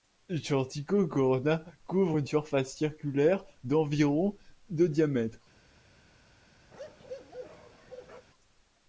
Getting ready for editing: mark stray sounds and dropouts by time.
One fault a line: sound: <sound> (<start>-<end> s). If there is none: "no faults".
sound: bark (6.7-8.3 s)